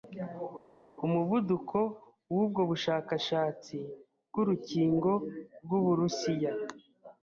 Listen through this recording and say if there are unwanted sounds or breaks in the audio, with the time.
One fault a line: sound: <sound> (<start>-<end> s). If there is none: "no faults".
no faults